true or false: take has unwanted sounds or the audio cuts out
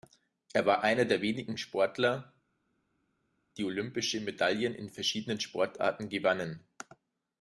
false